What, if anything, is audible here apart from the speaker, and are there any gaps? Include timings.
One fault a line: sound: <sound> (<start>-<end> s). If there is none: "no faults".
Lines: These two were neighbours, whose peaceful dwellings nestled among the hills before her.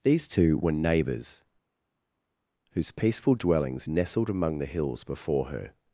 no faults